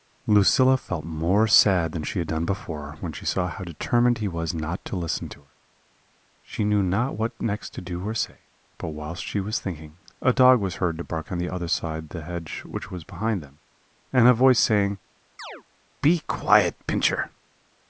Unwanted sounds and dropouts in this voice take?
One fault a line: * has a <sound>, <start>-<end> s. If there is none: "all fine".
* has a chirp, 15.4-15.6 s